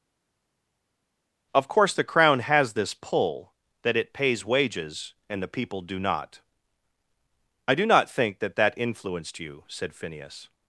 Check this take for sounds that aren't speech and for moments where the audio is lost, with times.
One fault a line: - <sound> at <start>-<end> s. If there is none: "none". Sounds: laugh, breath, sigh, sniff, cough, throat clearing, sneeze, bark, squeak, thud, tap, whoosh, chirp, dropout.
none